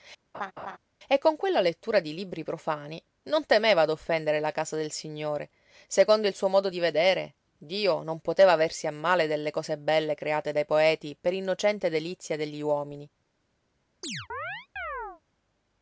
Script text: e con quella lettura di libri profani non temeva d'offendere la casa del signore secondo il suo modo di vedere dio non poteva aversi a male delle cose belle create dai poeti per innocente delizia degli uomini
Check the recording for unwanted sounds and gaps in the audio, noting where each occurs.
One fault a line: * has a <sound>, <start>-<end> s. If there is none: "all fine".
* has a laugh, 0.3-0.8 s
* has a chirp, 14.0-15.2 s